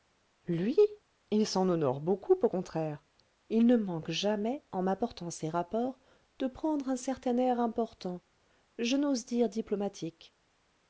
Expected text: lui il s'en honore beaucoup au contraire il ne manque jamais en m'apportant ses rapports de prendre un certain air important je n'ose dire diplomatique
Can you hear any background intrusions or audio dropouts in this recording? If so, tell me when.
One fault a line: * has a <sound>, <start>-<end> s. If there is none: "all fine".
all fine